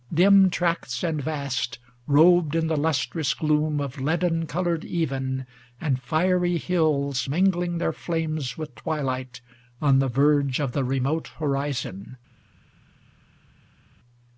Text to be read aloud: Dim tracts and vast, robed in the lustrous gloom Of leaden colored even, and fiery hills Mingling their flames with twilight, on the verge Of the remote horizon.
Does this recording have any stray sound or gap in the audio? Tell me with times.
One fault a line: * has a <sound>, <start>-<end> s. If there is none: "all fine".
all fine